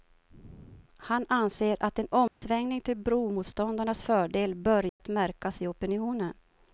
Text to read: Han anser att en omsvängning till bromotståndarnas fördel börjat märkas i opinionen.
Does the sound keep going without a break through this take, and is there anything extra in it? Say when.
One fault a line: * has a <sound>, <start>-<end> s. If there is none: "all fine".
* has a dropout, 2.3-2.4 s
* has a dropout, 4.9-5.0 s